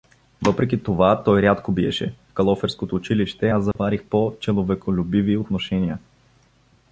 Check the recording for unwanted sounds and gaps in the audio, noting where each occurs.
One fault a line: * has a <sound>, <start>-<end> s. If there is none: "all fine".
* has a dropout, 3.7-3.8 s